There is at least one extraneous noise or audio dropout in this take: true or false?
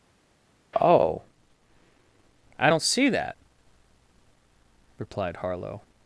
false